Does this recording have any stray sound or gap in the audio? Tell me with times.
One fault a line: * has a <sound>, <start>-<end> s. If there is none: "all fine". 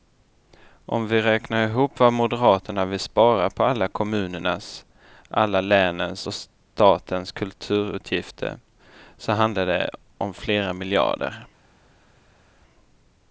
all fine